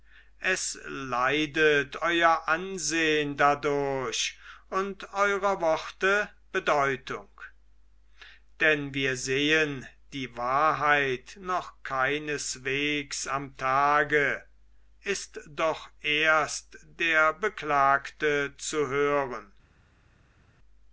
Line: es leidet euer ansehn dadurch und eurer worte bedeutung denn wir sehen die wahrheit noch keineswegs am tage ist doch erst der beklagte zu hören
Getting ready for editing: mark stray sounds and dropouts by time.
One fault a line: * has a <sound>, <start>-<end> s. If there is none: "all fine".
all fine